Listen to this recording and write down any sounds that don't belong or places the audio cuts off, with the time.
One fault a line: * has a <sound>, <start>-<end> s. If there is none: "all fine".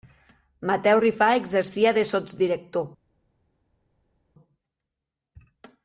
all fine